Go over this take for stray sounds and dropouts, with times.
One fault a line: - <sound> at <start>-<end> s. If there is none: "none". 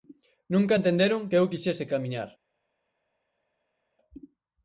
none